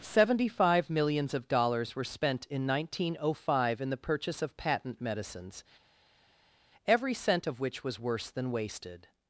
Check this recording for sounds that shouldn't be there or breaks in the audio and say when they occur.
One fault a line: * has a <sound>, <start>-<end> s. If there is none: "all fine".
all fine